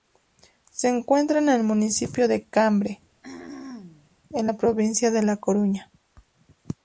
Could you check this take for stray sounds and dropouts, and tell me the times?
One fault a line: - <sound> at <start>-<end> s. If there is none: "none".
- throat clearing at 3.2-4.2 s